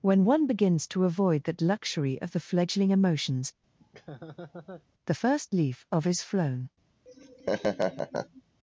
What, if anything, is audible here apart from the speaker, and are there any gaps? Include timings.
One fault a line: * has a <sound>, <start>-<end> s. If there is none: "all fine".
* has a laugh, 3.8-4.9 s
* has a laugh, 7.1-8.4 s